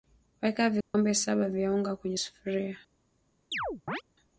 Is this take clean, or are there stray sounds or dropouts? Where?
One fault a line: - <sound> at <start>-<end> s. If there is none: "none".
- dropout at 0.8-0.9 s
- chirp at 3.5-4.0 s